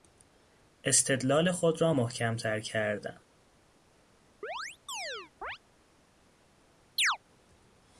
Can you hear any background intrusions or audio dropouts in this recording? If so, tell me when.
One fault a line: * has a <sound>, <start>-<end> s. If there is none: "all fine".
* has a chirp, 4.4-5.6 s
* has a chirp, 7.0-7.2 s